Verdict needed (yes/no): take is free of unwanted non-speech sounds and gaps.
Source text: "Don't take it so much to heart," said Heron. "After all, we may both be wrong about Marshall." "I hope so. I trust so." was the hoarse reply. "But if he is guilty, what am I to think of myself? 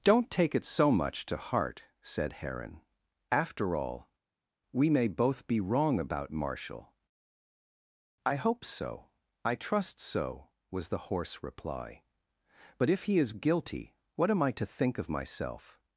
yes